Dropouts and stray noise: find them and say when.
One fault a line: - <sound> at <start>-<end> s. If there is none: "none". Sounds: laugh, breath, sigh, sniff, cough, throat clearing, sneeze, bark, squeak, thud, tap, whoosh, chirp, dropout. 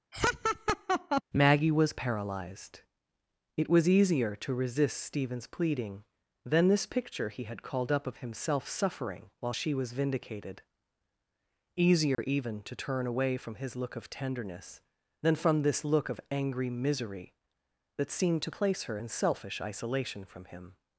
- laugh at 0.1-1.2 s
- dropout at 12.1-12.2 s